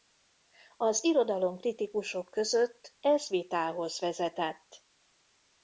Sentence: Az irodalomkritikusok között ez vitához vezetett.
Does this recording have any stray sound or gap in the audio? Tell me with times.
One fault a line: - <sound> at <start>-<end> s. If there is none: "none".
none